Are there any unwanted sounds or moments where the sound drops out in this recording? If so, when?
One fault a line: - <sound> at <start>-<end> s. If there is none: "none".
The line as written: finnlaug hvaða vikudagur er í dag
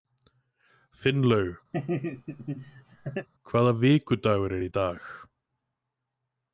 - laugh at 1.7-3.3 s